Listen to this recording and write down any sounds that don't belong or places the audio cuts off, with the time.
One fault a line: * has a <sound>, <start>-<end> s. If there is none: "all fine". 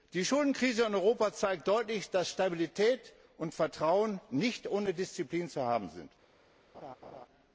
* has a laugh, 6.7-7.3 s